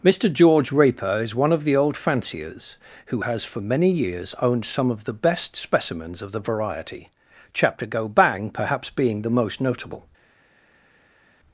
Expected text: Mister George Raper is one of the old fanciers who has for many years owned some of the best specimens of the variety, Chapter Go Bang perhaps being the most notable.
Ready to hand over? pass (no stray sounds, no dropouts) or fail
pass